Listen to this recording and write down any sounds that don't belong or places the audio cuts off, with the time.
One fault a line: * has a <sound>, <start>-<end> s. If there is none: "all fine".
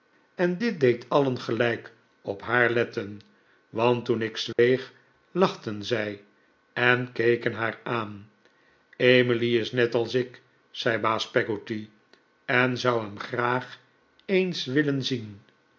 * has a dropout, 4.5-4.6 s